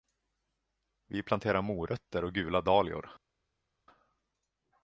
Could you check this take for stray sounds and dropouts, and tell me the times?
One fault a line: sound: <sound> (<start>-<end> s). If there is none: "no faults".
no faults